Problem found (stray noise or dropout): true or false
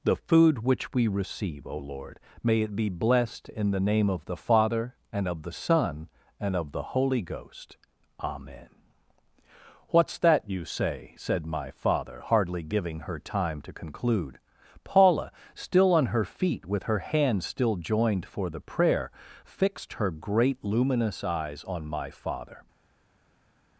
false